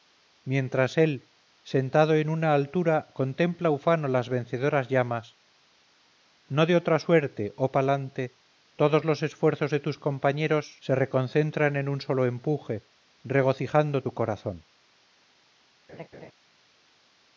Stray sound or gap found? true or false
true